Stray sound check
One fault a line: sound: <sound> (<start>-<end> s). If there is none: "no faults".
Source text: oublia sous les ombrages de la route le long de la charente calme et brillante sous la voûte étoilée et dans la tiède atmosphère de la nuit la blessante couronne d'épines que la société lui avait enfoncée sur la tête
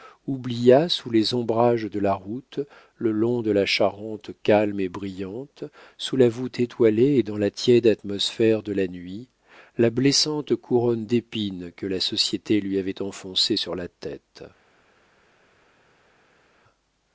no faults